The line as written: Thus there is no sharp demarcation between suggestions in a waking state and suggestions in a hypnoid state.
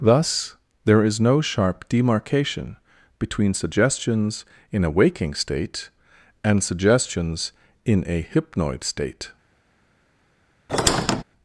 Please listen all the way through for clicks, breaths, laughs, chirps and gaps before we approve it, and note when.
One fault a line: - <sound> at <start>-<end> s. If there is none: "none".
- squeak at 10.7-11.2 s